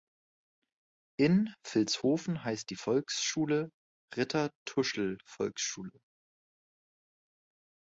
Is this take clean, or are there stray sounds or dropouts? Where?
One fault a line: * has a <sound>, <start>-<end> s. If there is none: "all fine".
all fine